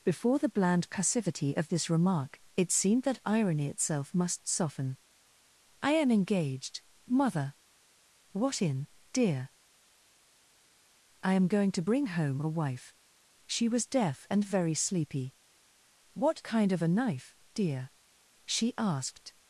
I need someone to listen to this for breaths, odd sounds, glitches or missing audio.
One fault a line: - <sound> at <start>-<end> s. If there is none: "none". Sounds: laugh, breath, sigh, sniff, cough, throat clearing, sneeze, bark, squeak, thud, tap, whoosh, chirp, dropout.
none